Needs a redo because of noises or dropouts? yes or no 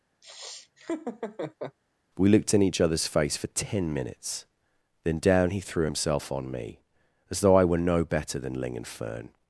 yes